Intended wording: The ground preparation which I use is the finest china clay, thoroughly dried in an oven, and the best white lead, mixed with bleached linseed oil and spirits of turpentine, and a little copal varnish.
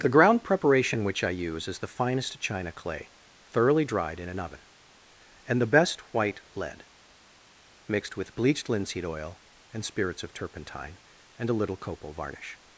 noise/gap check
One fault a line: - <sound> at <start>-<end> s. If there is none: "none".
none